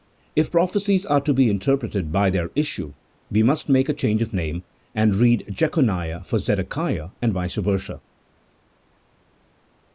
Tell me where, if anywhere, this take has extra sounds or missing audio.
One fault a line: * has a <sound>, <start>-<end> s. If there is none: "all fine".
all fine